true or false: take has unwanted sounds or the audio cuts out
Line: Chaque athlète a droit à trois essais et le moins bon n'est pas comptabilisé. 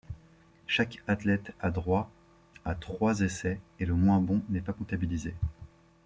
false